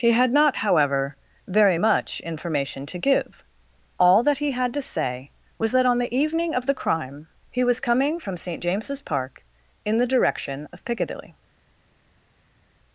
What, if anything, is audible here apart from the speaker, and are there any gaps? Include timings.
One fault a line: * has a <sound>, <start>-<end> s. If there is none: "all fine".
all fine